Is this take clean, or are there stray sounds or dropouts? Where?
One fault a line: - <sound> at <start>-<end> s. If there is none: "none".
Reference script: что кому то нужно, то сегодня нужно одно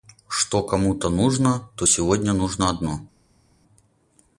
none